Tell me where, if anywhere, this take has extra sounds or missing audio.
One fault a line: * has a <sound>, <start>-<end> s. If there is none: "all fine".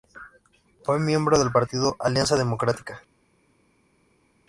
all fine